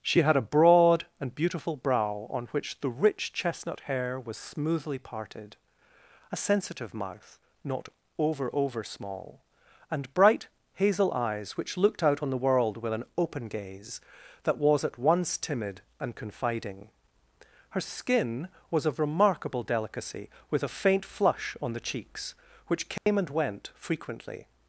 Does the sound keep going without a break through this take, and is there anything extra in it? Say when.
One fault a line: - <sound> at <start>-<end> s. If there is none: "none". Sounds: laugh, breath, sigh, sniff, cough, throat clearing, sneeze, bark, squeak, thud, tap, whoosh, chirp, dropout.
- dropout at 23.0-23.1 s